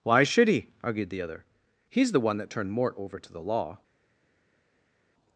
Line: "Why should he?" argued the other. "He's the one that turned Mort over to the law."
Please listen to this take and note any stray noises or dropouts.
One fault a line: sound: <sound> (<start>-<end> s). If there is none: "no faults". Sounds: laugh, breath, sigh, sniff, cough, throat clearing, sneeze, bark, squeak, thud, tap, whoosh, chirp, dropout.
no faults